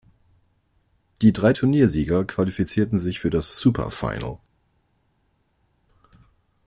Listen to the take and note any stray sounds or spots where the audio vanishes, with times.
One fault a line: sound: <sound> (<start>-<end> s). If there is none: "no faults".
no faults